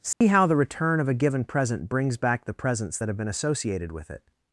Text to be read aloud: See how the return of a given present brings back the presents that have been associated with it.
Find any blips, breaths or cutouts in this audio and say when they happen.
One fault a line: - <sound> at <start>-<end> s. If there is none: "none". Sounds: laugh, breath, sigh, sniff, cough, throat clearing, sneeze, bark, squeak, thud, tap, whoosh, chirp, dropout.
- dropout at 0.1-0.2 s